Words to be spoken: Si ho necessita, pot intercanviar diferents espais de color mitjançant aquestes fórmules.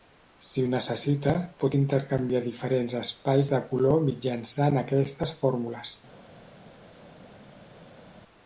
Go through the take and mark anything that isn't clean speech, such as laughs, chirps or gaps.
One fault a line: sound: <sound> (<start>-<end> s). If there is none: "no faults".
no faults